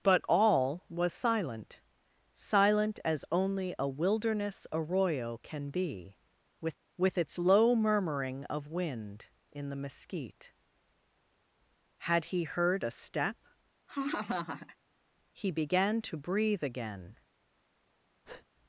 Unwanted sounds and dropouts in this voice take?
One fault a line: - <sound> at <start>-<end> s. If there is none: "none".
- laugh at 13.9-14.8 s
- breath at 18.2-18.5 s